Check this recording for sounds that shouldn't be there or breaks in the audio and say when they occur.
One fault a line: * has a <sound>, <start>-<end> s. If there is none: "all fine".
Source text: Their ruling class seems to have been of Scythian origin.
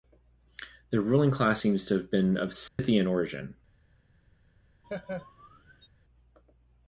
* has a dropout, 2.7-2.8 s
* has a laugh, 4.8-5.9 s